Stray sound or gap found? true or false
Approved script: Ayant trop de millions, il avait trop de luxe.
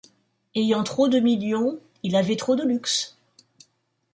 false